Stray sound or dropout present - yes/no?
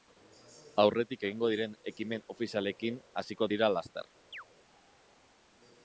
yes